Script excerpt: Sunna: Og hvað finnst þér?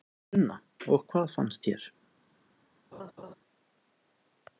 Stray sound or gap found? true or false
true